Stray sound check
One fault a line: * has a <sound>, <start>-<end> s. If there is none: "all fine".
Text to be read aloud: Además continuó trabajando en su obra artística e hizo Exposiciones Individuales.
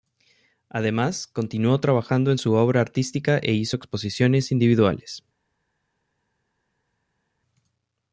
all fine